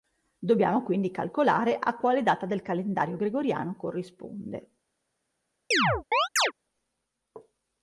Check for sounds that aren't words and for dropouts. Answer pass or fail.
fail